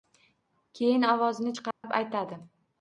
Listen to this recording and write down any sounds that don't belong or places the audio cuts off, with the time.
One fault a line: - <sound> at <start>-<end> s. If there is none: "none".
- dropout at 1.7-1.8 s